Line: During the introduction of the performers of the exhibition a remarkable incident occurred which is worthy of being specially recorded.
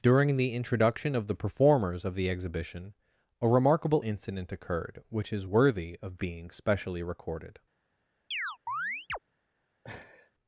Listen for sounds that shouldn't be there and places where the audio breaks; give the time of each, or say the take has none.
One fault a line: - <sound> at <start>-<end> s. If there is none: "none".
- chirp at 8.3-9.2 s
- laugh at 9.8-10.3 s